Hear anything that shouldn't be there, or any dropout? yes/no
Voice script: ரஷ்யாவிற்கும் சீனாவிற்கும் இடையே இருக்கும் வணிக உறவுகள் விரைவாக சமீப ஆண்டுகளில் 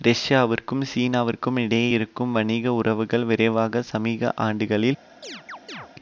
yes